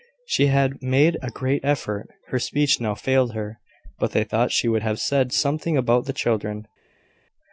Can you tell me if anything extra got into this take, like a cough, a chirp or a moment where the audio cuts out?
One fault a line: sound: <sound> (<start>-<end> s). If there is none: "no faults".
no faults